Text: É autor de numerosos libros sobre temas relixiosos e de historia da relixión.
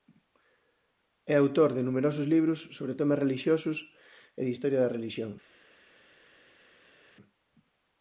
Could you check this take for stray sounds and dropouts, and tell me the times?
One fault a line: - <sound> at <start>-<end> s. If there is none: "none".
none